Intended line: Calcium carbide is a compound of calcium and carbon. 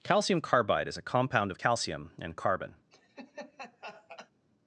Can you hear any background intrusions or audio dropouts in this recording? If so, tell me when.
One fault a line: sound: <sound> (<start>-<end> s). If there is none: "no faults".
sound: laugh (2.9-4.3 s)